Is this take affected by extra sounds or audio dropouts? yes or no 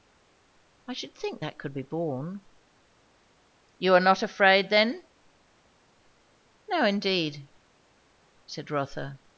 no